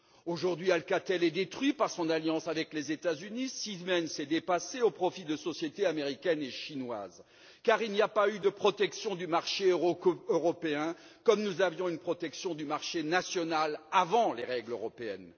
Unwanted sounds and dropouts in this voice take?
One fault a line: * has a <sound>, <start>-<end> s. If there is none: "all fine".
all fine